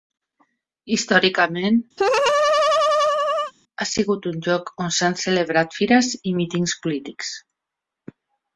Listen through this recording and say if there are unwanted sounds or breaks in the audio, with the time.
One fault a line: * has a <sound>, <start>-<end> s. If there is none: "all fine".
* has a laugh, 2.0-3.5 s